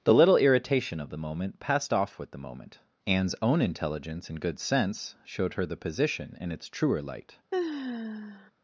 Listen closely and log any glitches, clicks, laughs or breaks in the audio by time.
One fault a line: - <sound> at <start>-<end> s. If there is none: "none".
- sigh at 7.5-8.5 s